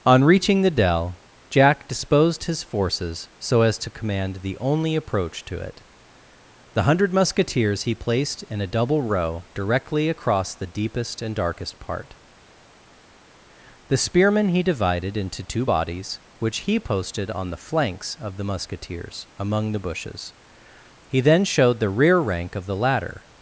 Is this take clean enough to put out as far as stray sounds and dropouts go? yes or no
yes